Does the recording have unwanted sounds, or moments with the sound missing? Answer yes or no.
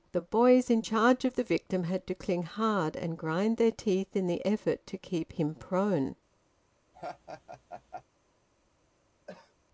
yes